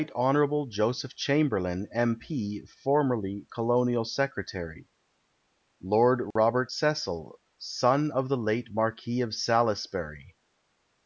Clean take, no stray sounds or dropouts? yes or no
no